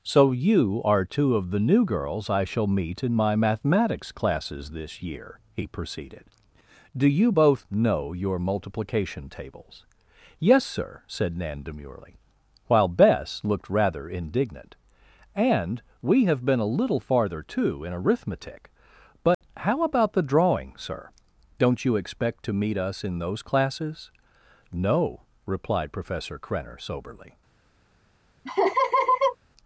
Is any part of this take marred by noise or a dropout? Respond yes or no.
yes